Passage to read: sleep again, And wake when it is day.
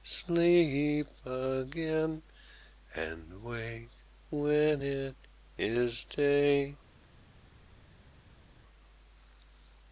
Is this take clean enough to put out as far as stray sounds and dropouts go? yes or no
yes